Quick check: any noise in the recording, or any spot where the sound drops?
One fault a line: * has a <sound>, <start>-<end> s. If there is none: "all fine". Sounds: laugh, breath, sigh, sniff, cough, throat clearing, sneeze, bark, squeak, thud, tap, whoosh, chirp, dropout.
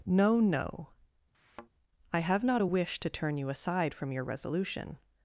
* has a thud, 1.3-1.7 s